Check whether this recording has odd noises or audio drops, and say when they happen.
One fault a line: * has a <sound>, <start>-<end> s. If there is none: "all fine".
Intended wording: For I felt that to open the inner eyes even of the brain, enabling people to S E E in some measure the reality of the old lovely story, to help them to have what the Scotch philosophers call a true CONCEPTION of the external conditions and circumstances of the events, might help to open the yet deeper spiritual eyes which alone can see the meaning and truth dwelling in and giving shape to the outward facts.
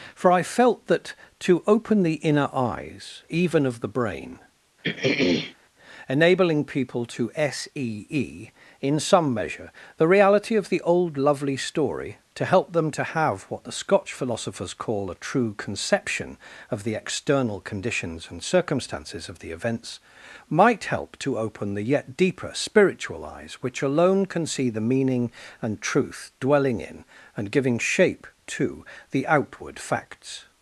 * has a throat clearing, 4.8-5.5 s